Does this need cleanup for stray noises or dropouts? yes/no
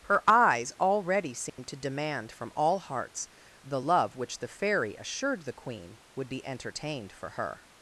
yes